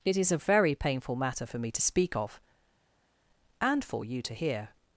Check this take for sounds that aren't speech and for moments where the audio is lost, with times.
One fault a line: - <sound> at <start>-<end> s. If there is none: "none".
none